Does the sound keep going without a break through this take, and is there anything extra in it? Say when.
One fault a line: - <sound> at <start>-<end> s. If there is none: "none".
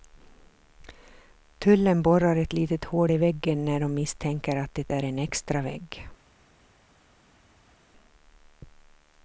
none